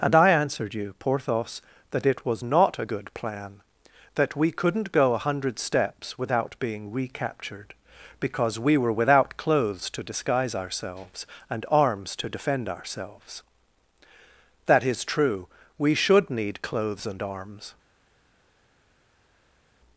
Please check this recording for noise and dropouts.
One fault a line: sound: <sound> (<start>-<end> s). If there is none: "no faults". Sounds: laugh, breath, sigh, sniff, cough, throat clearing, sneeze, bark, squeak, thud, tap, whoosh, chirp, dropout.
no faults